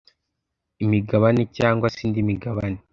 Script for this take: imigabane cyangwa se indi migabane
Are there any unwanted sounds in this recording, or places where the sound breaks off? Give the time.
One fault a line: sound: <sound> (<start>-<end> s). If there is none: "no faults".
no faults